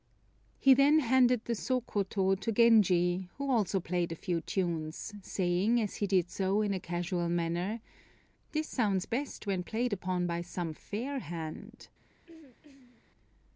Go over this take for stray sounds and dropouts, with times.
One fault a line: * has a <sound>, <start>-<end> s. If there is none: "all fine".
* has a throat clearing, 12.3-13.0 s